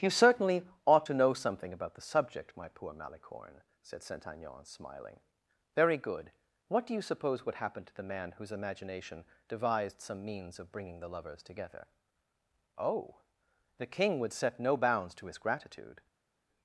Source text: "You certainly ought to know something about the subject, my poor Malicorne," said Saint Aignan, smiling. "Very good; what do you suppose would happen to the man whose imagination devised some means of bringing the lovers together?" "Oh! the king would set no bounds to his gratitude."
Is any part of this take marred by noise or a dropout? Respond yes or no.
no